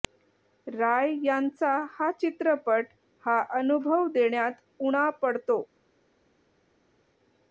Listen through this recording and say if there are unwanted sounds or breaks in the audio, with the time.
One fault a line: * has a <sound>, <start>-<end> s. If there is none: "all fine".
all fine